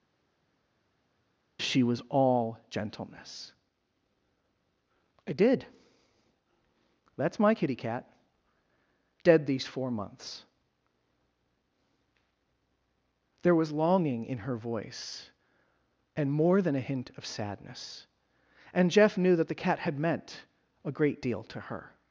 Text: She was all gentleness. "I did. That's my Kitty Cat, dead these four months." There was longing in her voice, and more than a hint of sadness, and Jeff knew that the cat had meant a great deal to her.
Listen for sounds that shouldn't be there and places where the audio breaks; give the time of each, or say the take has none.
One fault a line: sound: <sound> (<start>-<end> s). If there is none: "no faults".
no faults